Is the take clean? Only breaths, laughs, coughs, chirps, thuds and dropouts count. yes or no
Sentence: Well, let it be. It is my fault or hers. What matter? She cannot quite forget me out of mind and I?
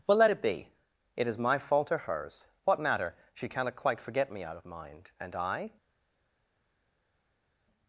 yes